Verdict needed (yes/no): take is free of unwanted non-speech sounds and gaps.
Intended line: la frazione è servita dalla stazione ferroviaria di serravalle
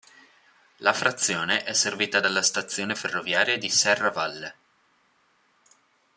yes